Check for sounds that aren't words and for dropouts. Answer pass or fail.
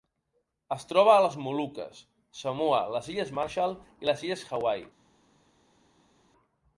pass